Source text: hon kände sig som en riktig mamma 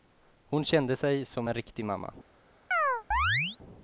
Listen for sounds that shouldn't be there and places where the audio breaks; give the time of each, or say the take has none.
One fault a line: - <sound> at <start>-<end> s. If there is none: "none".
- chirp at 2.7-3.6 s